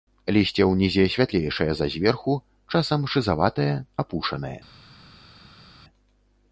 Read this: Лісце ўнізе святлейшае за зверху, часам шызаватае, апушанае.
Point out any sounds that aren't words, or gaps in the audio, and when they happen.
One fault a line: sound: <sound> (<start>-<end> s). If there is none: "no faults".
no faults